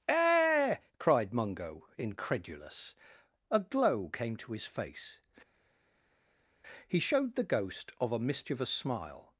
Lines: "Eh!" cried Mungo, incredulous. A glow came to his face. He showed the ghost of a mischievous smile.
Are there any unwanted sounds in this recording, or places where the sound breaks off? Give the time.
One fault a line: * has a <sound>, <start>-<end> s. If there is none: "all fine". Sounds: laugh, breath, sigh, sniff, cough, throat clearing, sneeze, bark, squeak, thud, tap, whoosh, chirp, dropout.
all fine